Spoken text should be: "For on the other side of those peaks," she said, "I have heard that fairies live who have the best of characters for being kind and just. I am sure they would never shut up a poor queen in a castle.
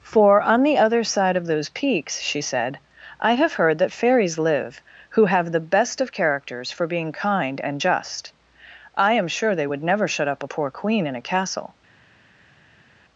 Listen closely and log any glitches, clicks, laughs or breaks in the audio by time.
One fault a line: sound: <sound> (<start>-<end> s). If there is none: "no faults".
no faults